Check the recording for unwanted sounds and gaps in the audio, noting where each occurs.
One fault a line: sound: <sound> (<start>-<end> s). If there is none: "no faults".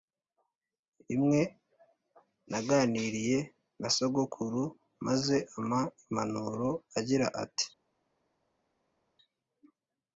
no faults